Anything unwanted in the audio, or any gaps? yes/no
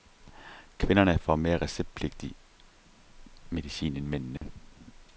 yes